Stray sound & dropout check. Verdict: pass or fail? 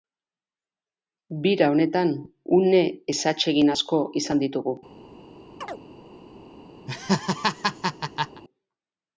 fail